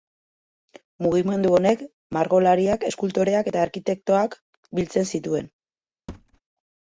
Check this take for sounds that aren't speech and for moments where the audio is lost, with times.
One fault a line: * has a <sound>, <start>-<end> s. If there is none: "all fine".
* has a thud, 6.1-6.4 s